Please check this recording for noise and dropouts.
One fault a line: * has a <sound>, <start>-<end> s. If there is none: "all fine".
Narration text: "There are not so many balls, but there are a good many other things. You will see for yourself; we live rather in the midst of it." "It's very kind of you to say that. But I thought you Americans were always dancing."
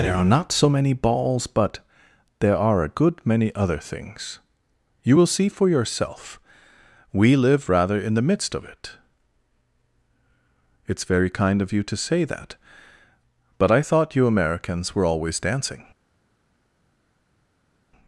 all fine